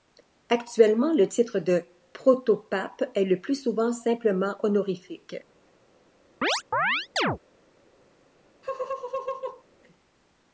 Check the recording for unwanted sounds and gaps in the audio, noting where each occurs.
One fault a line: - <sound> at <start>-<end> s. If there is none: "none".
- chirp at 6.4-7.4 s
- laugh at 8.6-9.6 s